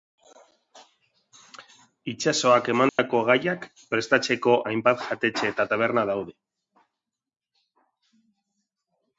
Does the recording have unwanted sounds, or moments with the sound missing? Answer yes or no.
yes